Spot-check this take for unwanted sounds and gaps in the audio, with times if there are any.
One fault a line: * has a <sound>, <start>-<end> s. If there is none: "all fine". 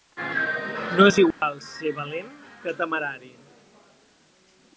* has a dropout, 1.3-1.4 s